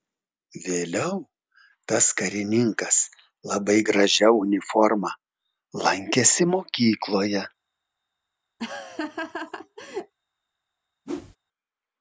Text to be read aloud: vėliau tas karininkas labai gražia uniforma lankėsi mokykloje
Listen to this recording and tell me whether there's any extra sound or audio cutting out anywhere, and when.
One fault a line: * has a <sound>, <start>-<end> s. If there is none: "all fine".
* has a laugh, 8.6-10.1 s
* has a whoosh, 11.0-11.4 s